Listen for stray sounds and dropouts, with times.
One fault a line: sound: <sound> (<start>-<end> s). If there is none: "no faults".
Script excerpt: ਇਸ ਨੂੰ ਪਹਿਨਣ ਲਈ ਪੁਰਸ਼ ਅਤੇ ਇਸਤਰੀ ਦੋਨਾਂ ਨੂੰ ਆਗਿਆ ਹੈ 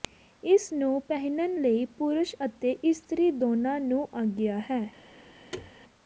sound: thud (5.5-5.7 s)